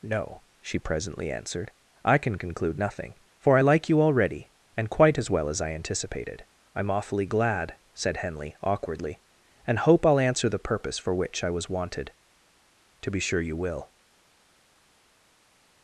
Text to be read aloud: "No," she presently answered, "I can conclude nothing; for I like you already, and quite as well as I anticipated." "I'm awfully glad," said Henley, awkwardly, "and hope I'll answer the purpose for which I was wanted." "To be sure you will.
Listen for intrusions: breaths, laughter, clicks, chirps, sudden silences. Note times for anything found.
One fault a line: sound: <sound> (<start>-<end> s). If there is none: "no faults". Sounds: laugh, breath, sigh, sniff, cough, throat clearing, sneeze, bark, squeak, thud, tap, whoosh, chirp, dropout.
no faults